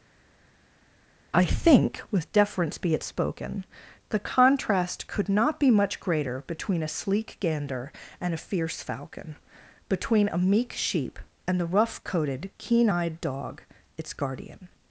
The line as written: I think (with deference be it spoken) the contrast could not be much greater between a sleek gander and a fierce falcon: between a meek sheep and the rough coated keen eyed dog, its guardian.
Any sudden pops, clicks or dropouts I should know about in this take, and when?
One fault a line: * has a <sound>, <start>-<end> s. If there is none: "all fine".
all fine